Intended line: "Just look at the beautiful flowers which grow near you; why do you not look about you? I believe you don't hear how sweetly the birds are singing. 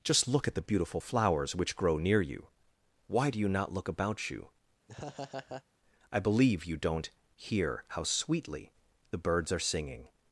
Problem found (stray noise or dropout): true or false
true